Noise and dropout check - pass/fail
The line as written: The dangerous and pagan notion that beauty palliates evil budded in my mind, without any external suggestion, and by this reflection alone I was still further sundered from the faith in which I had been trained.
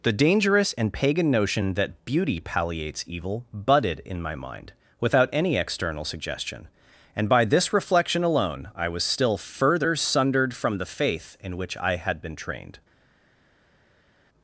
pass